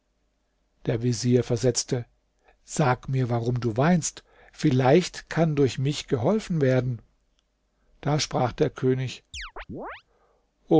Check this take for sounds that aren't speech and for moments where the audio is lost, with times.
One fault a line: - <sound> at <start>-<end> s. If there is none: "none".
- chirp at 9.3-10.0 s